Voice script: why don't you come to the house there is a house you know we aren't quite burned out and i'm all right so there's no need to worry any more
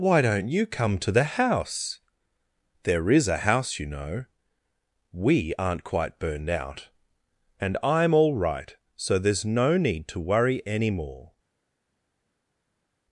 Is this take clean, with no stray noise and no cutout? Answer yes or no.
yes